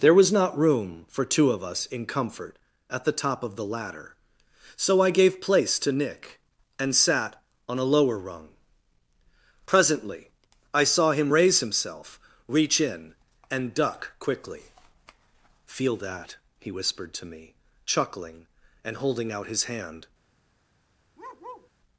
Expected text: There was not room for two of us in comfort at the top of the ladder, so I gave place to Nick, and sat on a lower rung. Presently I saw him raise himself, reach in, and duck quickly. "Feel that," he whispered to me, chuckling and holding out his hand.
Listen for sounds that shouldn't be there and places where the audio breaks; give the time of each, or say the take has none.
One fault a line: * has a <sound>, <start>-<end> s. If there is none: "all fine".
* has a bark, 21.2-21.7 s